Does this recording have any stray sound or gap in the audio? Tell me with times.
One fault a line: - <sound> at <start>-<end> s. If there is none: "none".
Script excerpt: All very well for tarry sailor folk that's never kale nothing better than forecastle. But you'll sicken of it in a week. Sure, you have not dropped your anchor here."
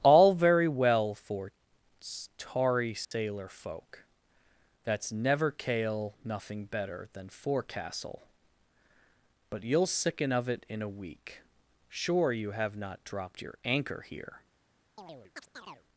- dropout at 3.0-3.1 s
- chirp at 15.0-15.9 s